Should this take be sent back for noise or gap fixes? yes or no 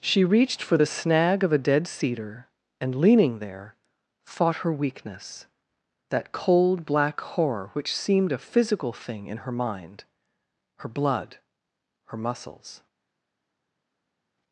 no